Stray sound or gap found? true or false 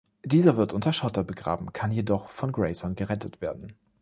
false